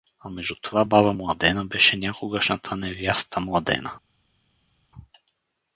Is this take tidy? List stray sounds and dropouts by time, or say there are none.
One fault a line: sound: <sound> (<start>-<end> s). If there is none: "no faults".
no faults